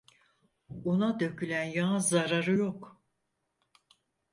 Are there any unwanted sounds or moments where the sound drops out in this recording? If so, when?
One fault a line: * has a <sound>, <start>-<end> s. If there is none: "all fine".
all fine